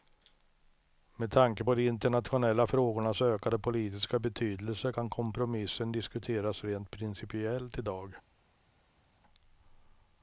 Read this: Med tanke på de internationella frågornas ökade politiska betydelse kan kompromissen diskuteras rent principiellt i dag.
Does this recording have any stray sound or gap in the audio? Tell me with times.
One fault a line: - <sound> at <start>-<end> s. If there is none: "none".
none